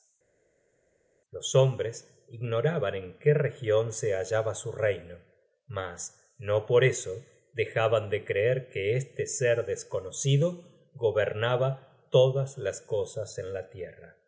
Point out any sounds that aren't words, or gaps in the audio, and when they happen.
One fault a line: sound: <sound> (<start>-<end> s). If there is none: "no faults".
no faults